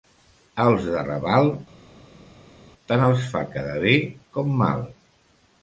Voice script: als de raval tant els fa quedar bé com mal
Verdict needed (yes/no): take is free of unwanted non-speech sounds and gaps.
yes